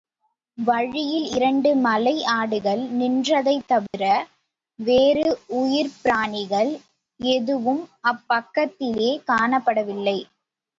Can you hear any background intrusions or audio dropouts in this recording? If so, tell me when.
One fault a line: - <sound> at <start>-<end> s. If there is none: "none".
- dropout at 3.9-3.9 s